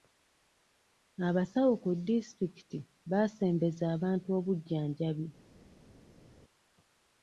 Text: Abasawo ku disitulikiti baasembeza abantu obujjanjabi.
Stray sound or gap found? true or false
false